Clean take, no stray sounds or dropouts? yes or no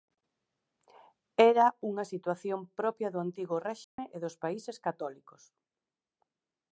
no